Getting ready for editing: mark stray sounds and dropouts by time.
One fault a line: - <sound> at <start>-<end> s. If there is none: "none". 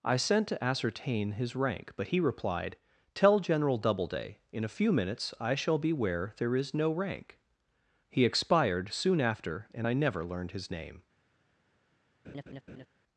- laugh at 12.2-12.9 s